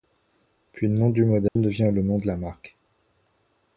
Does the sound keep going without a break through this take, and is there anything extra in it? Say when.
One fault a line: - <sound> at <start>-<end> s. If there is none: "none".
- dropout at 1.5-1.6 s